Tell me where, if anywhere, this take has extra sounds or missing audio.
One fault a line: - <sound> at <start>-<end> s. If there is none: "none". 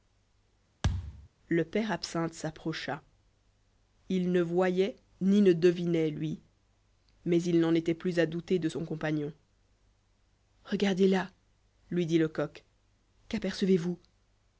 - thud at 0.8-1.3 s